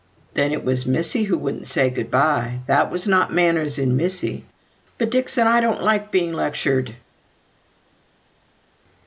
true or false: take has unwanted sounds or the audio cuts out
false